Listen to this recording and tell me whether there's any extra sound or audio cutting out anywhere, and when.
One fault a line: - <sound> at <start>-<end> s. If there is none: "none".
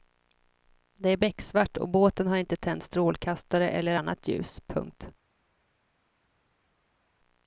none